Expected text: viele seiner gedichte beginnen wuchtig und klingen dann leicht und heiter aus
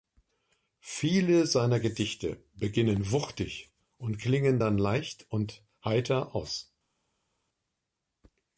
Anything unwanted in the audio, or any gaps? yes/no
no